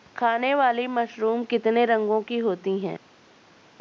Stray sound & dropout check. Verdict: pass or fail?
pass